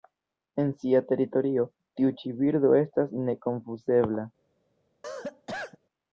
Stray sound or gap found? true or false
true